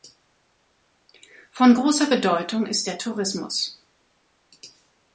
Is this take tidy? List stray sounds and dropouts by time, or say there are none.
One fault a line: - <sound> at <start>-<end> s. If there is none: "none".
none